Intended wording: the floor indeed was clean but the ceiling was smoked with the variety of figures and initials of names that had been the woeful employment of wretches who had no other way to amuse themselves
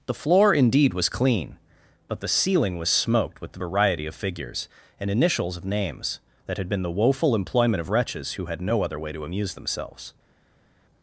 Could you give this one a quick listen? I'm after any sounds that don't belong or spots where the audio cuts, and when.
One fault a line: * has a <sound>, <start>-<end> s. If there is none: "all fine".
all fine